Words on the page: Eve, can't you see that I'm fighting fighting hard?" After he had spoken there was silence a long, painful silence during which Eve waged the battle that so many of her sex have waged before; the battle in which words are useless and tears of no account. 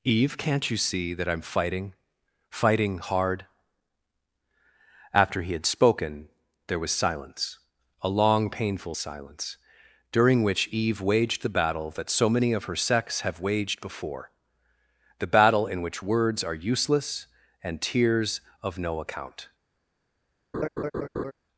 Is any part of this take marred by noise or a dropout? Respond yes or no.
yes